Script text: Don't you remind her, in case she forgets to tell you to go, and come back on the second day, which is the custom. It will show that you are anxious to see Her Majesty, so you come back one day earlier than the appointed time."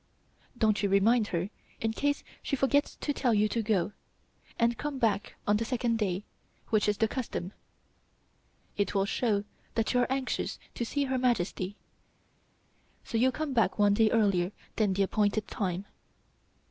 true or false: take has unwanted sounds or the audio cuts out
false